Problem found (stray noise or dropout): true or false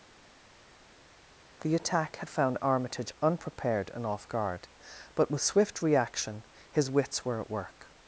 false